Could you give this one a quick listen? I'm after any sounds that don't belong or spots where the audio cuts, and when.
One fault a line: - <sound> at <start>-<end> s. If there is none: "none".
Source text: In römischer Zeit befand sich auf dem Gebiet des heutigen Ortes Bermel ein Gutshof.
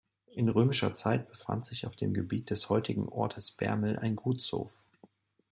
none